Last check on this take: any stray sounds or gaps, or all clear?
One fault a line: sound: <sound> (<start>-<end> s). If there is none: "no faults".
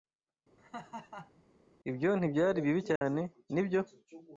sound: laugh (0.6-1.4 s)
sound: dropout (3.0-3.0 s)